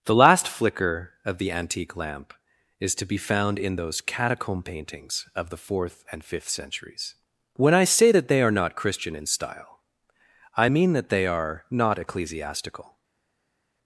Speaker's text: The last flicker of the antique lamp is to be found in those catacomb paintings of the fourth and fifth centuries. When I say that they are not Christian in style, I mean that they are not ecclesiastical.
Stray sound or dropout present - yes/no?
no